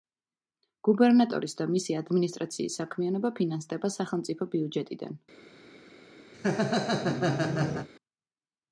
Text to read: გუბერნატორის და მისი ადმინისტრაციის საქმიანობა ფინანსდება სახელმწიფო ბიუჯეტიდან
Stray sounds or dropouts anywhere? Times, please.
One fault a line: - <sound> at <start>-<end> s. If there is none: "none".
- laugh at 6.3-7.9 s